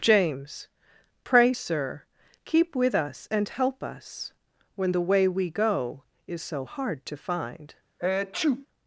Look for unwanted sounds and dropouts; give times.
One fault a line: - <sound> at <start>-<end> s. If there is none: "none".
- sneeze at 8.0-8.7 s